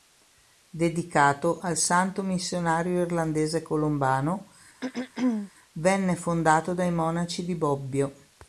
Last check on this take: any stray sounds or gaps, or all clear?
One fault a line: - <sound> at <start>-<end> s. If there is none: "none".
- throat clearing at 4.8-5.5 s